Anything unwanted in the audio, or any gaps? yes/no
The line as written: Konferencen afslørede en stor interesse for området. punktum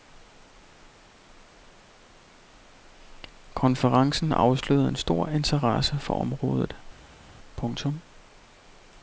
no